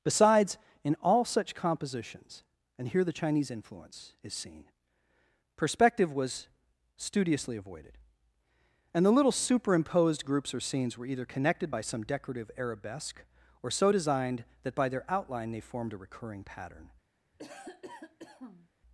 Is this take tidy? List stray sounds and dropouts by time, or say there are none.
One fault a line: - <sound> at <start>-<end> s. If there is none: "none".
- cough at 17.3-18.7 s